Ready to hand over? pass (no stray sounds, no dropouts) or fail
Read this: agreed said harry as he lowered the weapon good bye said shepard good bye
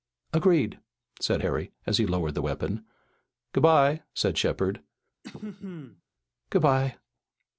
fail